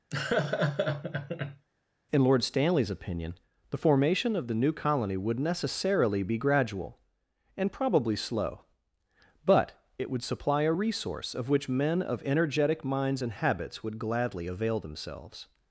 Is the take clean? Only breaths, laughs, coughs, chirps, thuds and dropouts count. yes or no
no